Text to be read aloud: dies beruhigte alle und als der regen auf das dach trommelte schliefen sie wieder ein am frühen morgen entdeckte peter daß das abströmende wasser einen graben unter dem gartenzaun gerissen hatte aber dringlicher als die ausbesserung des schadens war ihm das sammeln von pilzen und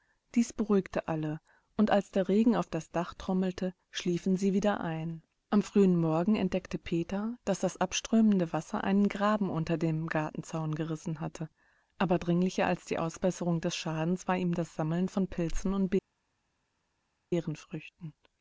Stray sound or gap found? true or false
false